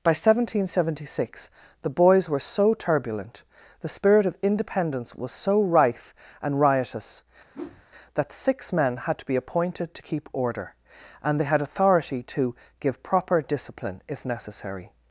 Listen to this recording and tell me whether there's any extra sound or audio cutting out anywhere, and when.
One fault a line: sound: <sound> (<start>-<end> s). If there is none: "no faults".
sound: whoosh (7.5-7.8 s)